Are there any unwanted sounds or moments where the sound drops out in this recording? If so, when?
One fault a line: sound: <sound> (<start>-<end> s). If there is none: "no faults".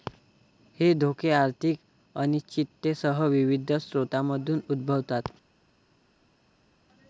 no faults